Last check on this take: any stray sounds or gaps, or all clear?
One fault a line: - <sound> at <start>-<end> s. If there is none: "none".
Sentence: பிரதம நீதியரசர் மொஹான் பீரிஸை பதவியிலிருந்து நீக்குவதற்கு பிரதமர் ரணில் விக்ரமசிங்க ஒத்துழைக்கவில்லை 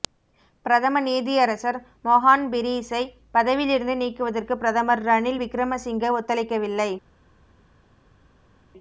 none